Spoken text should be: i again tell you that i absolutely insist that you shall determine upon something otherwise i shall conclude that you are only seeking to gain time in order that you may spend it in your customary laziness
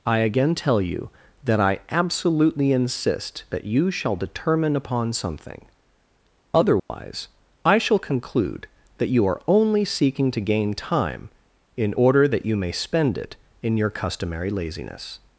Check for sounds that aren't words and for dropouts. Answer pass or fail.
fail